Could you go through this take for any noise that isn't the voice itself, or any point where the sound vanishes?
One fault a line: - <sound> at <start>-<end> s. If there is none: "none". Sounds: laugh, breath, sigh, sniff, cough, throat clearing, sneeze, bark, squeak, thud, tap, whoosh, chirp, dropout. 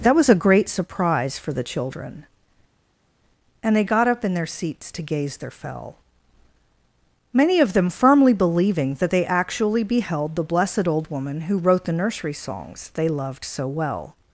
none